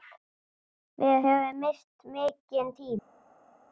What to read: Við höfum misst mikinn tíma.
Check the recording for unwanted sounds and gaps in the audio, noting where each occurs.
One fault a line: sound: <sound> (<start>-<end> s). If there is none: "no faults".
no faults